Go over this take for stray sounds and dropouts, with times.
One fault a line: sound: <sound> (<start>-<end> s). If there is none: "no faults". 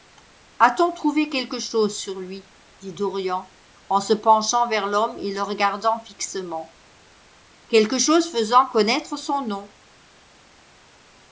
no faults